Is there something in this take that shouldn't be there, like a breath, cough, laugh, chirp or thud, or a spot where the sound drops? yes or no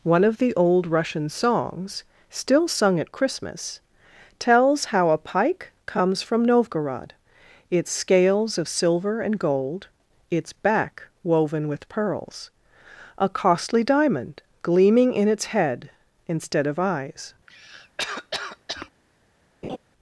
yes